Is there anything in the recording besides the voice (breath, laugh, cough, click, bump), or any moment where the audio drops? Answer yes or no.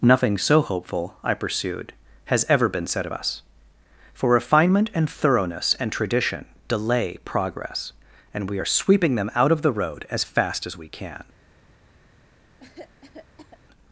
yes